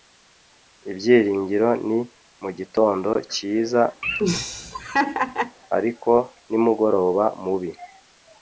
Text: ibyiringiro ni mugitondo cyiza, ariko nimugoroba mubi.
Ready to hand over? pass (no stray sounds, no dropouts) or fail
fail